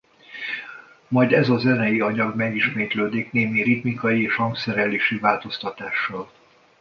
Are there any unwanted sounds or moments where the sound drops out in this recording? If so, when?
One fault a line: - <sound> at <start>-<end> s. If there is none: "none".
none